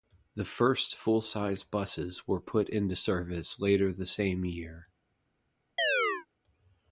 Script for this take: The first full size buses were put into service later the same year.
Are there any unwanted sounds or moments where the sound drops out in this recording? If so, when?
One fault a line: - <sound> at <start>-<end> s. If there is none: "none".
- chirp at 5.8-6.3 s